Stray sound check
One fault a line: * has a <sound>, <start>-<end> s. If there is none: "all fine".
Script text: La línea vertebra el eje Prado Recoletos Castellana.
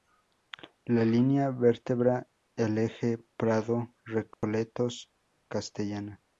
* has a dropout, 4.3-4.4 s